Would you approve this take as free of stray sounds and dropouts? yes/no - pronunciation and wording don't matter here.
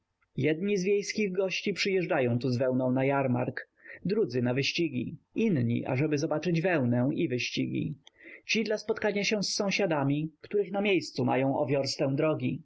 yes